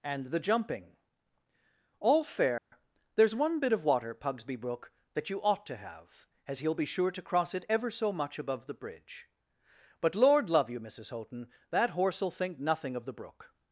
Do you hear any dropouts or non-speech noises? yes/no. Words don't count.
yes